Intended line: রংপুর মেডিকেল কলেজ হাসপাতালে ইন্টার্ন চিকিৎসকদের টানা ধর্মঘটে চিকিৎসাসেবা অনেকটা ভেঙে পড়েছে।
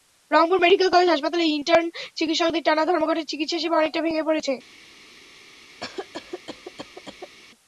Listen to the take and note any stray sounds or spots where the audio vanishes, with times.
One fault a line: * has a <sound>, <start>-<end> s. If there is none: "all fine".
* has a cough, 5.8-7.4 s